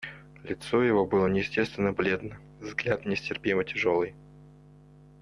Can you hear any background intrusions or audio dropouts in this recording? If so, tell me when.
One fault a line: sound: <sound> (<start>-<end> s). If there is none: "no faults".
no faults